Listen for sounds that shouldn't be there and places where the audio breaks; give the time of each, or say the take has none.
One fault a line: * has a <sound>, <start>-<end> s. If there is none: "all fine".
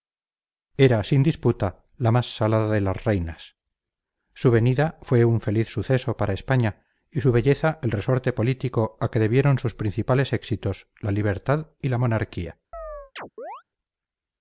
* has a chirp, 12.7-13.6 s